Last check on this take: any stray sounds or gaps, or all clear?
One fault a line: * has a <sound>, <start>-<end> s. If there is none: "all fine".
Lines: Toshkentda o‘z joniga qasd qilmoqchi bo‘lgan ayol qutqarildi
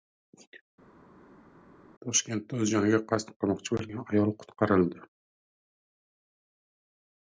all fine